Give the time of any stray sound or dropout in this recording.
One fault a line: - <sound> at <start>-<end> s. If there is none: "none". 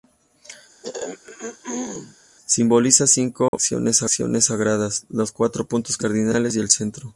- throat clearing at 0.8-2.2 s
- dropout at 3.5-3.5 s